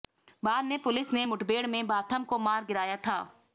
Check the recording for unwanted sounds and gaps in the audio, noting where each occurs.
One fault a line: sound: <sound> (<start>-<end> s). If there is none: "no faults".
no faults